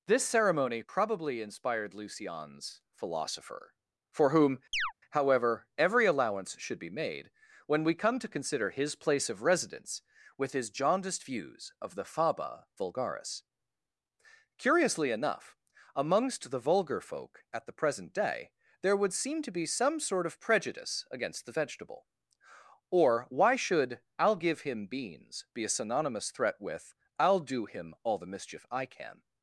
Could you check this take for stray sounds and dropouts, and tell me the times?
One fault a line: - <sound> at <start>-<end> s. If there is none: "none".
- chirp at 4.7-4.9 s